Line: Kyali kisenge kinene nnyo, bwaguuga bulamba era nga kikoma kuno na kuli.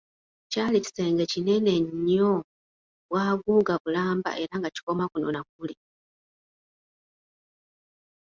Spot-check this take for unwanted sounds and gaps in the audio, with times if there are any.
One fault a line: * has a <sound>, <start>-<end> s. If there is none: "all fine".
all fine